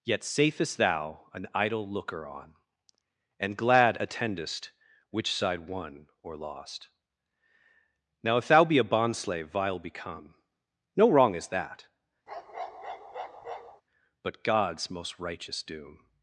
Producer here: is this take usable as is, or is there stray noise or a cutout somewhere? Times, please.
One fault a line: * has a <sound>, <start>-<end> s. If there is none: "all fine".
* has a bark, 12.3-13.8 s